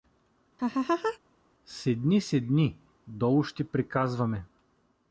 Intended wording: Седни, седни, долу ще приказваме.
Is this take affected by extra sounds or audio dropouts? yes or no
yes